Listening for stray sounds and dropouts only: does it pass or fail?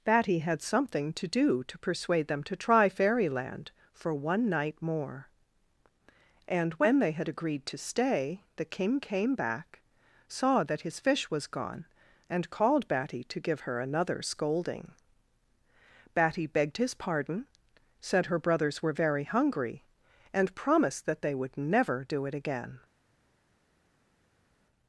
pass